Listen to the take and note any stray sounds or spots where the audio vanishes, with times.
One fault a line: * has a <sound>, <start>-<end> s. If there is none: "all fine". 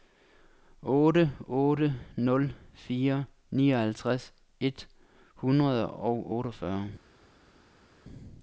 all fine